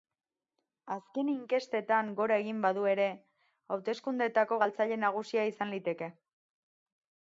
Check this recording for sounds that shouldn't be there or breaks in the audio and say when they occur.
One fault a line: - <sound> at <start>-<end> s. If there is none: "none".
none